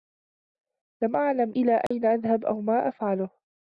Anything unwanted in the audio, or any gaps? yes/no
yes